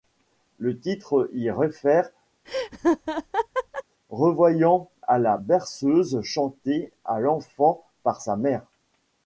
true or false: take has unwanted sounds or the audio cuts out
true